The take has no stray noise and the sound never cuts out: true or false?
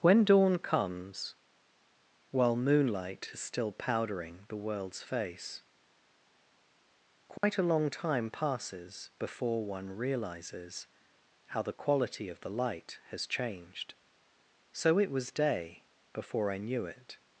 false